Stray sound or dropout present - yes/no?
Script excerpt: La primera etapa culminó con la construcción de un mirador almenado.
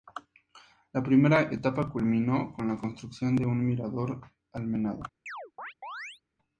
yes